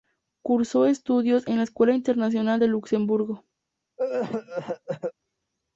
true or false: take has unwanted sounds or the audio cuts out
true